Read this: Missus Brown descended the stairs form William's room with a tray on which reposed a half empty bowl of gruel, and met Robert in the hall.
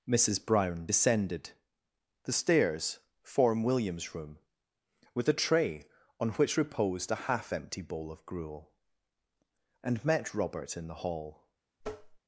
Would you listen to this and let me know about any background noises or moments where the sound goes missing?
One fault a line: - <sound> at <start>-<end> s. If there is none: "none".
- tap at 11.8-12.2 s